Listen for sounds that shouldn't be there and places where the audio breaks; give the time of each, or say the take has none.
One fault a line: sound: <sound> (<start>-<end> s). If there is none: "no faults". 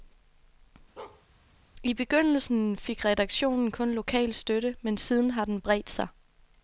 sound: bark (1.0-1.3 s)